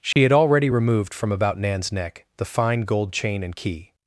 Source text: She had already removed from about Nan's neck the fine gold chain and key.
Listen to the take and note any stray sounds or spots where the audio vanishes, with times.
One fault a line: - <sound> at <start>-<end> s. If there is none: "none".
- dropout at 0.1-0.2 s